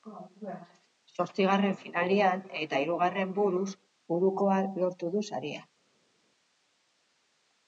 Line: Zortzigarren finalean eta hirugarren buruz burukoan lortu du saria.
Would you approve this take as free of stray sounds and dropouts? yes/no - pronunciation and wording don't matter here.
yes